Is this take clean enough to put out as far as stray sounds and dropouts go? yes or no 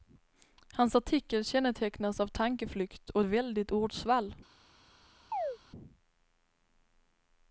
no